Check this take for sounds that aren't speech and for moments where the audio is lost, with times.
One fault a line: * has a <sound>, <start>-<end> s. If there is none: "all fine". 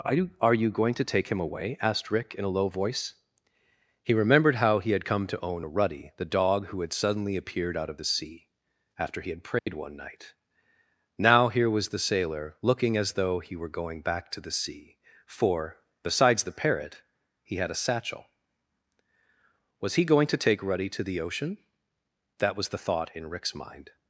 * has a dropout, 9.6-9.7 s